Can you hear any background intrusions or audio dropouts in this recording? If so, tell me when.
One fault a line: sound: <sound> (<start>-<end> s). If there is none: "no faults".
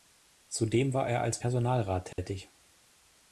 sound: dropout (2.1-2.2 s)